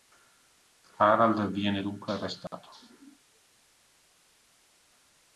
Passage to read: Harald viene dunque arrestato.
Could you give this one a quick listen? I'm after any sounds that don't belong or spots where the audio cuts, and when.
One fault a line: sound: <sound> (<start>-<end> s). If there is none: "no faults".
sound: dropout (2.5-2.5 s)